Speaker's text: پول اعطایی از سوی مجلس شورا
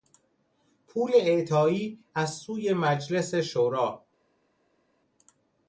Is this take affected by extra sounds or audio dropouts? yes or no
no